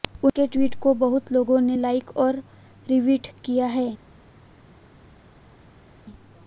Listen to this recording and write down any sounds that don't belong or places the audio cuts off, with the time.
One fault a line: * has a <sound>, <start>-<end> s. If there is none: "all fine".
all fine